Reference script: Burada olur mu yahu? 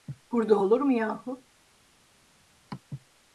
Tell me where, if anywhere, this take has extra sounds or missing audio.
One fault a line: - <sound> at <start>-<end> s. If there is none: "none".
none